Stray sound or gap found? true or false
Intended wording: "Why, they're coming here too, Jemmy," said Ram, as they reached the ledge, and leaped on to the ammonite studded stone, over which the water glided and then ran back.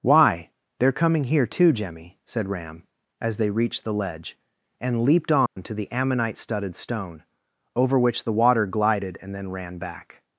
true